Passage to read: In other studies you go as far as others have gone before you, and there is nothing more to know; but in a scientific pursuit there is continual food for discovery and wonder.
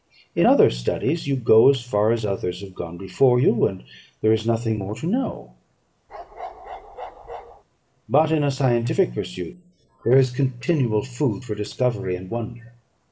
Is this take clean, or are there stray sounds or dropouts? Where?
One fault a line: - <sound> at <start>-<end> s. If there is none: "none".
- bark at 6.1-7.6 s